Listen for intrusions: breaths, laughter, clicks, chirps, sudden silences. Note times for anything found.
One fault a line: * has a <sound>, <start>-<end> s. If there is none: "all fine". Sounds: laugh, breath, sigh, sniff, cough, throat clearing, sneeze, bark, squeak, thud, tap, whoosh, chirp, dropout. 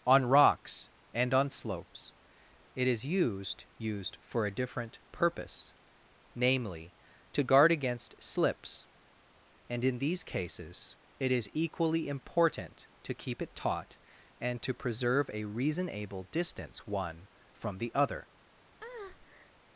* has a breath, 18.8-19.5 s